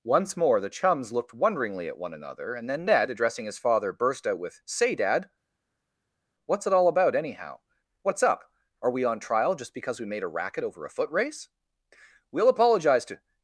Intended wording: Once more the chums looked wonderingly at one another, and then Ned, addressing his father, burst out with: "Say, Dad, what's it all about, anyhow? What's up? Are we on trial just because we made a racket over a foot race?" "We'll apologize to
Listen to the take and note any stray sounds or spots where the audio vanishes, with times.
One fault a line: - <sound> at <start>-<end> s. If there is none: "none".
none